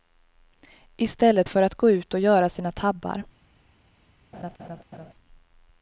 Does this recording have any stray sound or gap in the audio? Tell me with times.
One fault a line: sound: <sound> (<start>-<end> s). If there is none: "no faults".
sound: laugh (4.3-5.1 s)